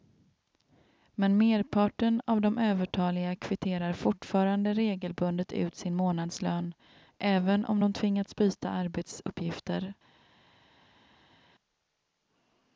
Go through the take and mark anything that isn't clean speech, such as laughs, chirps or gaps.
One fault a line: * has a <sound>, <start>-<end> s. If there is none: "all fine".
all fine